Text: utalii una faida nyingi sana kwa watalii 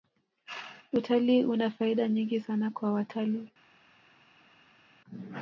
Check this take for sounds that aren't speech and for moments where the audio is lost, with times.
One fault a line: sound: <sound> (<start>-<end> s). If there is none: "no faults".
no faults